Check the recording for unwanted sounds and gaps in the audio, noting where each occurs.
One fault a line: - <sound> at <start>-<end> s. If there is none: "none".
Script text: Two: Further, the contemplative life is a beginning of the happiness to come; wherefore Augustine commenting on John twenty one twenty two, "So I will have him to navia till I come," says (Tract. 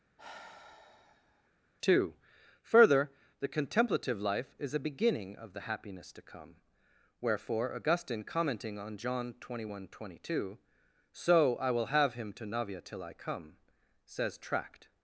- sigh at 0.2-1.5 s